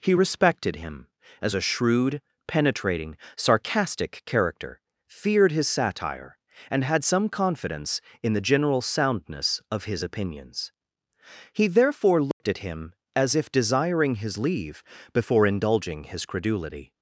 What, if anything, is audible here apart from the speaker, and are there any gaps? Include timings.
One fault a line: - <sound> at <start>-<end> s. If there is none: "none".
- dropout at 12.3-12.4 s